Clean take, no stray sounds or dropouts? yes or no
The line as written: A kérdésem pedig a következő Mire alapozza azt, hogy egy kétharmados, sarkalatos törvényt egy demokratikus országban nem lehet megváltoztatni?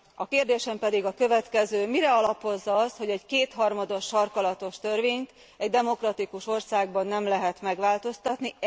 yes